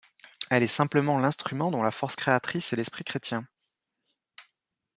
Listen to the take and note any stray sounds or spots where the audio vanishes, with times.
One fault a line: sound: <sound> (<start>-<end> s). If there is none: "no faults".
no faults